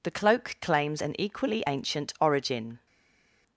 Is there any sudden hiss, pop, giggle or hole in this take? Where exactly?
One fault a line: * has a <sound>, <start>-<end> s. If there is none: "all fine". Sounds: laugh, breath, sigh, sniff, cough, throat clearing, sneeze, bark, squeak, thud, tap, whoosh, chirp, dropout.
all fine